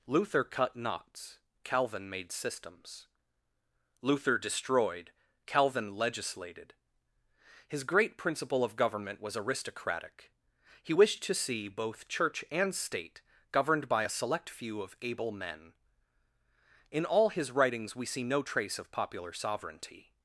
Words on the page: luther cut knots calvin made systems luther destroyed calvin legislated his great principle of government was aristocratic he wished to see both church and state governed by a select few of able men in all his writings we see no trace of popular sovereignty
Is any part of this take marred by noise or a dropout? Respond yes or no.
no